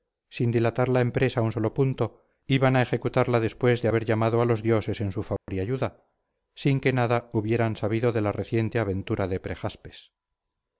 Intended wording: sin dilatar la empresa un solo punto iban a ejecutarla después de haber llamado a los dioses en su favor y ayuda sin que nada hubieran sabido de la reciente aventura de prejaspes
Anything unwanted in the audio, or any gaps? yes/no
yes